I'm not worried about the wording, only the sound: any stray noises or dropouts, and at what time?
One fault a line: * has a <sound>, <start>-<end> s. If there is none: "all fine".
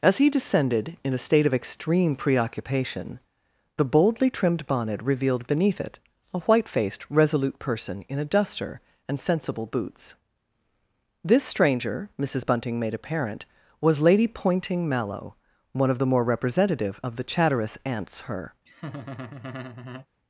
* has a laugh, 18.7-20.1 s